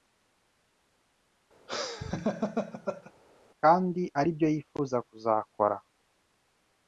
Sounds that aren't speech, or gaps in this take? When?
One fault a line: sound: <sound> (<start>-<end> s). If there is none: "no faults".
sound: laugh (1.7-3.1 s)